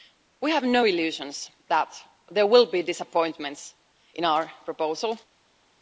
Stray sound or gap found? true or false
false